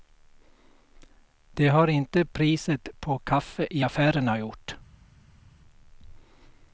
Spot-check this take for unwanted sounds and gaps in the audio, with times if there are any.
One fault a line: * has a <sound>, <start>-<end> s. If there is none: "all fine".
all fine